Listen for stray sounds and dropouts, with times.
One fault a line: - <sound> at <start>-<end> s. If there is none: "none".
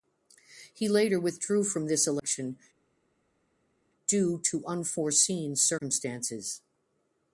none